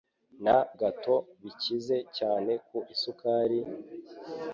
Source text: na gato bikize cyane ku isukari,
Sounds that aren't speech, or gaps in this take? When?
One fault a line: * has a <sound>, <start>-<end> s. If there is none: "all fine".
all fine